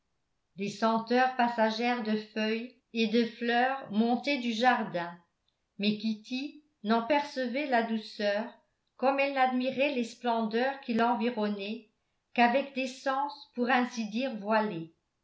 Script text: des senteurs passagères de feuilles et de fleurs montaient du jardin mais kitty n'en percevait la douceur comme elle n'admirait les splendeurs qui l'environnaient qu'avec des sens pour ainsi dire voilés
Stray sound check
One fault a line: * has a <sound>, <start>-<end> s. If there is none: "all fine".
all fine